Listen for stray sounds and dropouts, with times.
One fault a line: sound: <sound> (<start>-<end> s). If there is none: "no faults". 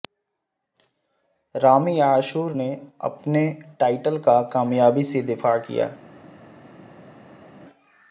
no faults